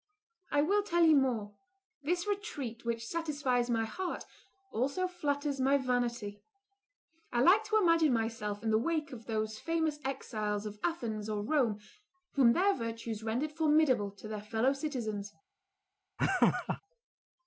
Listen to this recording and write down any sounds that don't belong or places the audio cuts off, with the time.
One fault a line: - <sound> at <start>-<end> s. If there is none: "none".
- laugh at 16.2-16.8 s